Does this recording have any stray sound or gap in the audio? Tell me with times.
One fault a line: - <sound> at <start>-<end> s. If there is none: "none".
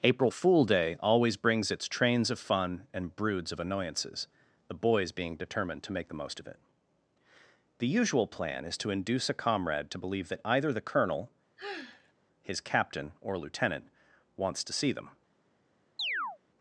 - sigh at 11.6-12.1 s
- chirp at 16.0-16.4 s